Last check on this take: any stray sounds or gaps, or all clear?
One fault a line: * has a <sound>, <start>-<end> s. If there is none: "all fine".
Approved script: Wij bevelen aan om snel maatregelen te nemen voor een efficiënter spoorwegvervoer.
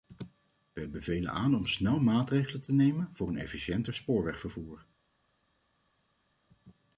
all fine